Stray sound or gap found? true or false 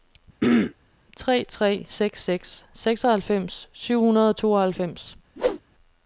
true